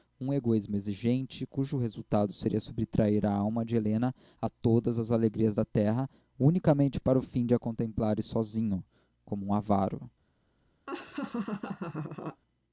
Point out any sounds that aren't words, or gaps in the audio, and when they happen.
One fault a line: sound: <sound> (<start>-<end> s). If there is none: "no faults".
sound: laugh (10.9-12.4 s)